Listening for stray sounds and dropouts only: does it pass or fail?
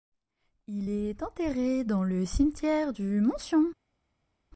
pass